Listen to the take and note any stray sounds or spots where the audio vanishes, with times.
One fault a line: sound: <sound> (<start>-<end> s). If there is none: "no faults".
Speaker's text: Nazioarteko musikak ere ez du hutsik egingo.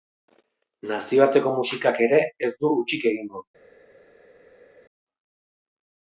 no faults